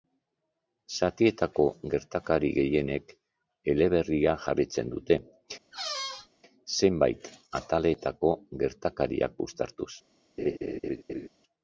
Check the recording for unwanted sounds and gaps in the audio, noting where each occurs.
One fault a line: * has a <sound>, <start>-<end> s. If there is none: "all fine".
* has a squeak, 5.7-6.3 s
* has a laugh, 10.4-11.3 s